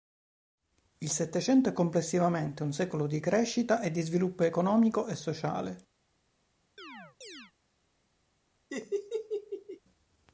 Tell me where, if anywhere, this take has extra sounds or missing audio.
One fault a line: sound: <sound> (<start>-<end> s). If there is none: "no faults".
sound: chirp (6.8-7.5 s)
sound: laugh (8.7-9.8 s)